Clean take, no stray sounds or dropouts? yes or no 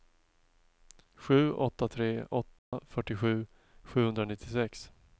no